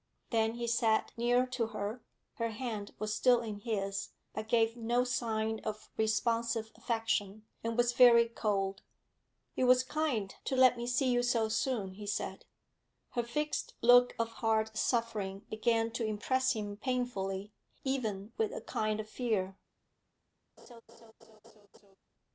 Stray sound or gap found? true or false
true